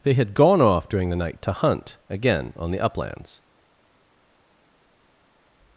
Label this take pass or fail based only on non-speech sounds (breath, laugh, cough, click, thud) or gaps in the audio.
pass